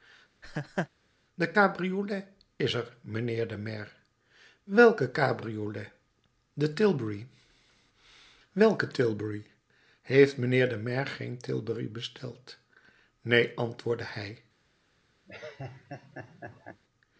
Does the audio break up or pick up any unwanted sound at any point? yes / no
yes